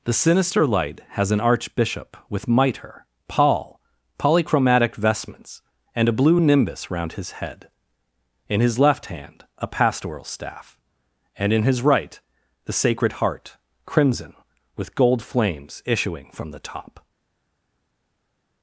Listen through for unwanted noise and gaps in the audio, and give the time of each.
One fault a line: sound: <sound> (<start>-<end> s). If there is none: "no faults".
no faults